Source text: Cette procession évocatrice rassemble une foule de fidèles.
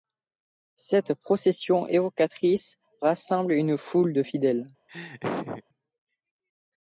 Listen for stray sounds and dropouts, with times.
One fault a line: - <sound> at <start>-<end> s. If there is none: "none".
- laugh at 4.9-5.6 s